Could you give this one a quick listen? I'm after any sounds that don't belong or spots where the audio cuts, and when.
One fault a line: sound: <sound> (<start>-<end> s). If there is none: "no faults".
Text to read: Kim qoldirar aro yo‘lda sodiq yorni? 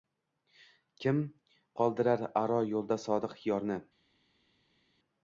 no faults